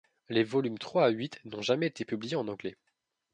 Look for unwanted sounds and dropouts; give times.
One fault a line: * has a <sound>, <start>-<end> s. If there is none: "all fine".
all fine